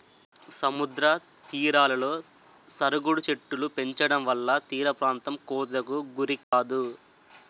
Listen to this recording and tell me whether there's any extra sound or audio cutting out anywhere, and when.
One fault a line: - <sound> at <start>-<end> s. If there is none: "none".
- dropout at 6.4-6.5 s